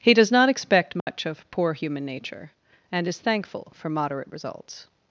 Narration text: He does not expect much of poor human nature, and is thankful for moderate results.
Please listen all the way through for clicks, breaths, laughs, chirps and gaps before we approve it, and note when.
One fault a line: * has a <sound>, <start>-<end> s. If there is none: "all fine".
* has a dropout, 1.0-1.1 s